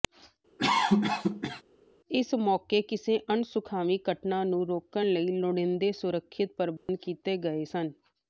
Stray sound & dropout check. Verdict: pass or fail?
fail